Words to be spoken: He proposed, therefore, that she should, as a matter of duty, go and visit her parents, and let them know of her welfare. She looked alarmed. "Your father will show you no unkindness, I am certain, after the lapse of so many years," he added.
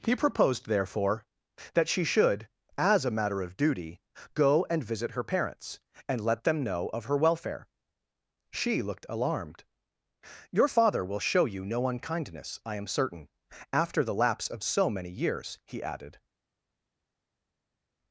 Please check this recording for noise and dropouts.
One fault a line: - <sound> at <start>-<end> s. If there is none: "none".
none